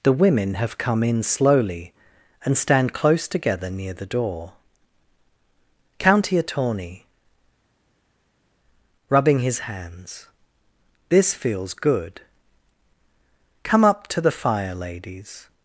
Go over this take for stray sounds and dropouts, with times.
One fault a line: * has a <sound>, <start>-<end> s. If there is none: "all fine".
all fine